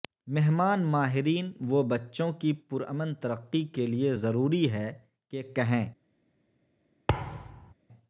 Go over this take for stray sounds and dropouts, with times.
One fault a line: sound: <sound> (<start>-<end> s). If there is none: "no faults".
sound: thud (7.1-7.7 s)